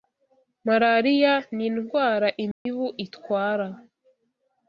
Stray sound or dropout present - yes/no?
yes